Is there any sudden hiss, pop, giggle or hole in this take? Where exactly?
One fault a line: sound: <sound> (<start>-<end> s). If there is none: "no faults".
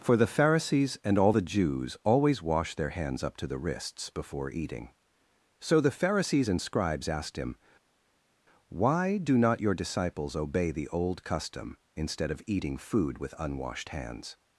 no faults